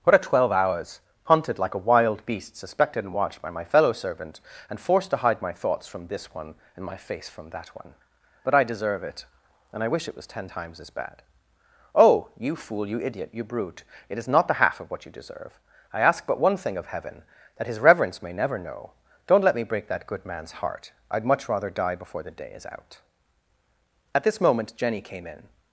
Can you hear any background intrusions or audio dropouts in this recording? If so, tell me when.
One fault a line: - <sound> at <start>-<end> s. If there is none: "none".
none